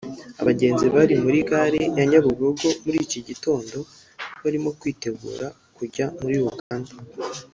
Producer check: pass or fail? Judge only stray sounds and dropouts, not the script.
fail